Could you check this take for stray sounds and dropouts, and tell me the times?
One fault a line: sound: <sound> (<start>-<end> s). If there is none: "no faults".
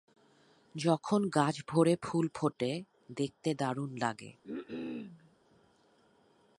sound: cough (4.4-5.4 s)